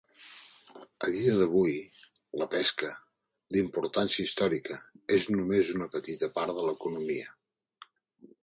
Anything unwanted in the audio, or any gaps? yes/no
no